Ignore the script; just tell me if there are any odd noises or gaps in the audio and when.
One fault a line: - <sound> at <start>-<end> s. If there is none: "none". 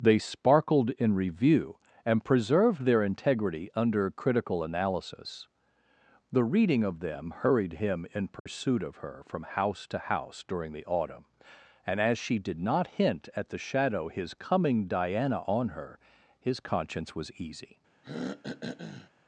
- dropout at 8.4-8.5 s
- throat clearing at 18.0-19.1 s